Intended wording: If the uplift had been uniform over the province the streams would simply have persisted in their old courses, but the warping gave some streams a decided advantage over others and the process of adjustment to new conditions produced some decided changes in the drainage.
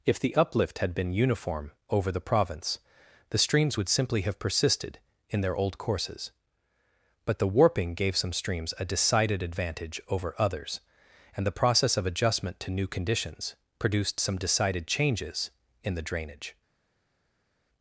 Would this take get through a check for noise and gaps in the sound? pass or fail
pass